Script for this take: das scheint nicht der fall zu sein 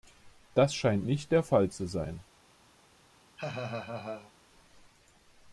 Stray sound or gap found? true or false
true